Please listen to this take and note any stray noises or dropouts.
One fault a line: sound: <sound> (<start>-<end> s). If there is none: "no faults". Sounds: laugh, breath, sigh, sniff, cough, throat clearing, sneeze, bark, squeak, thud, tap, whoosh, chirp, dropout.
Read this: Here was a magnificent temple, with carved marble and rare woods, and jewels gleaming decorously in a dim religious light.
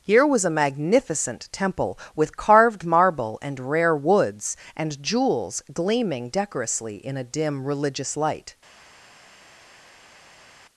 no faults